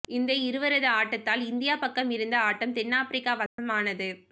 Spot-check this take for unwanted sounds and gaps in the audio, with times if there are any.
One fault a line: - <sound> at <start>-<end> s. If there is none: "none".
- dropout at 3.5-3.6 s